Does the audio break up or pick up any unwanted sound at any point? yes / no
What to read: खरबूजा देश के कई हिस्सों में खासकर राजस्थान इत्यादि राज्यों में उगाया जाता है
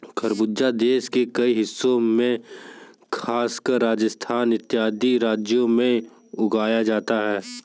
no